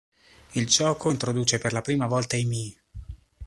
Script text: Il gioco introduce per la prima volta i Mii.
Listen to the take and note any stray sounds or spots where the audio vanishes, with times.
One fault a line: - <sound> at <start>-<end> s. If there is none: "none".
none